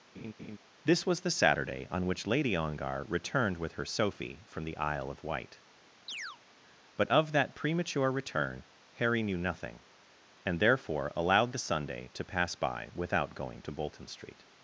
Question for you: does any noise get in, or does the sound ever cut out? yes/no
yes